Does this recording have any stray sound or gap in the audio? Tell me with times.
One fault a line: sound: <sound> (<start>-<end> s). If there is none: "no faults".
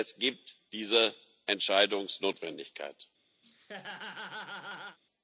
sound: laugh (3.4-5.0 s)